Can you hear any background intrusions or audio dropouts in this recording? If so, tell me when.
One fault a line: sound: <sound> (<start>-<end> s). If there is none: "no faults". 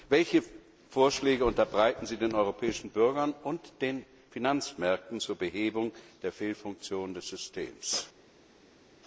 no faults